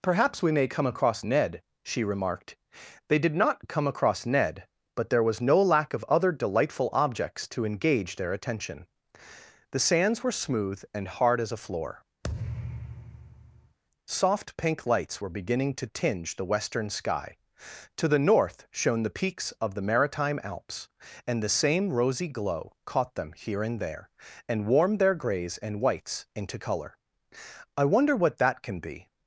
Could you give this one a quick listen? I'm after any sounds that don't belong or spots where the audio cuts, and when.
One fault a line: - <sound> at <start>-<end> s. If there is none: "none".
- thud at 12.2-13.8 s